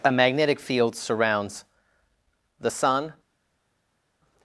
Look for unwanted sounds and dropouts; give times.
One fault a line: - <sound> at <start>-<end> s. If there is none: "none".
none